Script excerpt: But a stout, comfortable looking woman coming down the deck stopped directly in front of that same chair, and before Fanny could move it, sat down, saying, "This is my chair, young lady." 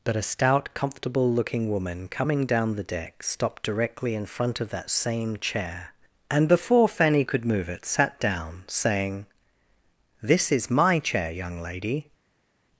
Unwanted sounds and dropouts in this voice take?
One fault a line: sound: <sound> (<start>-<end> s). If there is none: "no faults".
no faults